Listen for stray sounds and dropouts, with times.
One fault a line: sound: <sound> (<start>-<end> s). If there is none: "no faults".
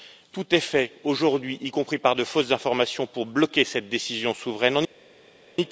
no faults